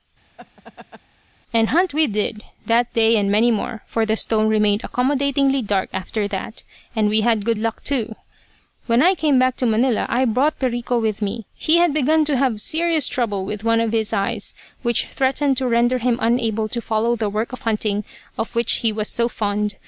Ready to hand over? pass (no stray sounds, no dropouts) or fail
fail